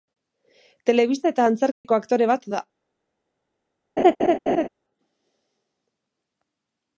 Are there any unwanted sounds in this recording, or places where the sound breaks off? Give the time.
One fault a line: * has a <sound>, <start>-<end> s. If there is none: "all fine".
* has a dropout, 1.7-1.8 s
* has a laugh, 4.0-4.7 s